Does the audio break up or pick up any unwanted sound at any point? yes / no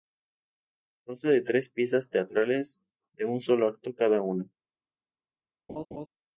yes